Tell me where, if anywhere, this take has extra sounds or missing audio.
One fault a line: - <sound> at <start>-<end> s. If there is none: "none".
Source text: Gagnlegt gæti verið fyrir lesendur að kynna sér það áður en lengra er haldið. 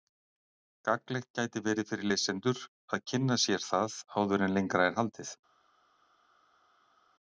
none